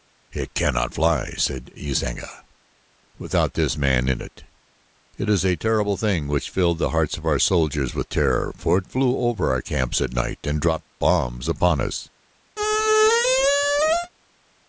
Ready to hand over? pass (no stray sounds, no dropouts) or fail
fail